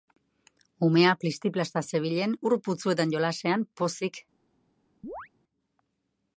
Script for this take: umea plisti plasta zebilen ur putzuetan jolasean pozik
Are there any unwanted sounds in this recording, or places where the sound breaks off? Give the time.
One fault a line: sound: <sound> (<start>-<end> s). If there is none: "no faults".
sound: chirp (5.0-5.3 s)